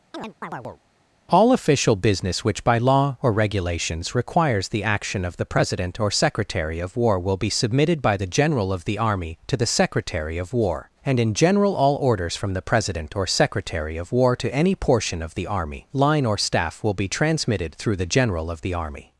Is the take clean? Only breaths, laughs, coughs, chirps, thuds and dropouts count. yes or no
no